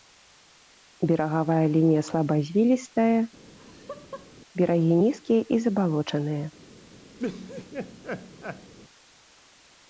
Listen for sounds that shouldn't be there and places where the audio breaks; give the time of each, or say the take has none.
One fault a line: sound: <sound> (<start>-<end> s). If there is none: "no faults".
sound: laugh (3.4-4.3 s)
sound: laugh (7.2-8.7 s)